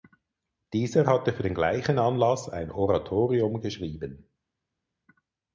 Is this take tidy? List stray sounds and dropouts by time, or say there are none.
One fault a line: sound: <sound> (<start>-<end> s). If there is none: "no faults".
no faults